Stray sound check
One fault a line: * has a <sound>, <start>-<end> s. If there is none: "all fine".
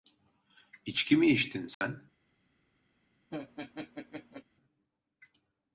* has a dropout, 1.7-1.8 s
* has a laugh, 3.3-4.4 s